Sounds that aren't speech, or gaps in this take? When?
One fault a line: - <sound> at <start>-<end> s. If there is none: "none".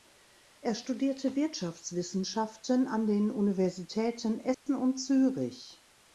- dropout at 4.5-4.7 s